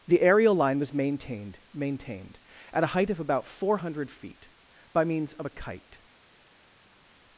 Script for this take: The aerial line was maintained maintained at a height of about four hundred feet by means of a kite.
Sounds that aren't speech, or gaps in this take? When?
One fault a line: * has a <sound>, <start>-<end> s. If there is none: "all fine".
all fine